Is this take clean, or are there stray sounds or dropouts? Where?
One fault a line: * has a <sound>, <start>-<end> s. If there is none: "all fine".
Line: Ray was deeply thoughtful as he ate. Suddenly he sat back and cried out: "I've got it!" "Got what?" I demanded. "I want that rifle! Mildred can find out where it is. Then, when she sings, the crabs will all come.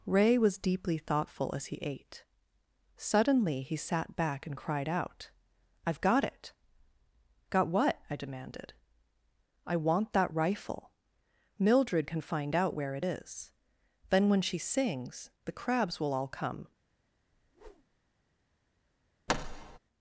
* has a whoosh, 17.3-18.0 s
* has a thud, 19.3-19.8 s